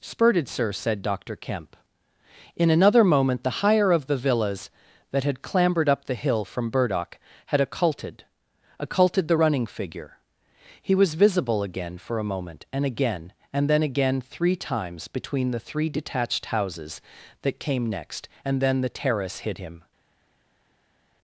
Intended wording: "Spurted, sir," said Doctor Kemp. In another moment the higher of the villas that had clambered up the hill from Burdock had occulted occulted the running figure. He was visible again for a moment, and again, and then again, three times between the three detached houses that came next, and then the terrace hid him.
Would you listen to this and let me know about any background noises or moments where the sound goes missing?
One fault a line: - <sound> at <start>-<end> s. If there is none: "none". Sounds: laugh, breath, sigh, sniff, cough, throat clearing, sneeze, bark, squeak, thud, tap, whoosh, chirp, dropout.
none